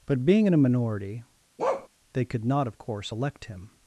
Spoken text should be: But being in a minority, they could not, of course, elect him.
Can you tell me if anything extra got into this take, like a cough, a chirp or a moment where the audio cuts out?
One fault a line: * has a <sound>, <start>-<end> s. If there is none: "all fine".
* has a bark, 1.6-1.9 s